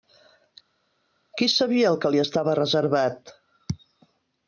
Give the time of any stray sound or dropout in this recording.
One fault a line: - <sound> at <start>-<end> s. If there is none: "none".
none